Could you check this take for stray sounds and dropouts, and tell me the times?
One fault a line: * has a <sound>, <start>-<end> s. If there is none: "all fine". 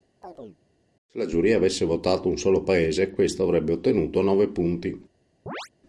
* has a chirp, 0.2-0.6 s
* has a chirp, 5.5-5.7 s